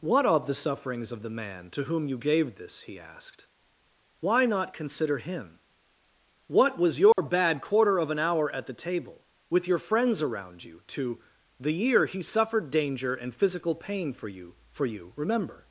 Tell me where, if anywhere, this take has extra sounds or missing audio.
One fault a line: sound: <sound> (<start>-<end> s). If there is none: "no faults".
sound: dropout (7.1-7.2 s)